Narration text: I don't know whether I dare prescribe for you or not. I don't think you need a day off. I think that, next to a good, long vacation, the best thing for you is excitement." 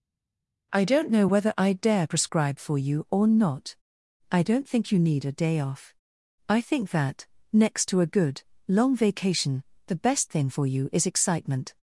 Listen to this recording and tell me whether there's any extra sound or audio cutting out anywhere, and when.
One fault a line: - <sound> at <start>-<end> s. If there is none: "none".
none